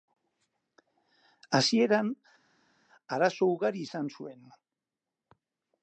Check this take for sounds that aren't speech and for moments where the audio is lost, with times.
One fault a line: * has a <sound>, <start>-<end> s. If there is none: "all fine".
all fine